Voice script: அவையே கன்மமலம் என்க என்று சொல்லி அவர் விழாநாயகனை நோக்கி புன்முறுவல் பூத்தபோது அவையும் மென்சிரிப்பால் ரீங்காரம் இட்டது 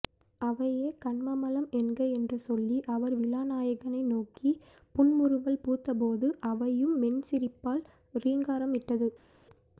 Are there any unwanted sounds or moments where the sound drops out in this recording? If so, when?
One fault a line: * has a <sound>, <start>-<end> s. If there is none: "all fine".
all fine